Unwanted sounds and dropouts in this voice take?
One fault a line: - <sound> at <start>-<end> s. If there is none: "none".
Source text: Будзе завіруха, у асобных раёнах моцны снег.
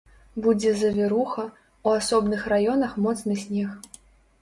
none